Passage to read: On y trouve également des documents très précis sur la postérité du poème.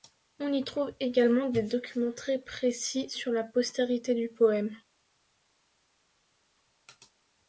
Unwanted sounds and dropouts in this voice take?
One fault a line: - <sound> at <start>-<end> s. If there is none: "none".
none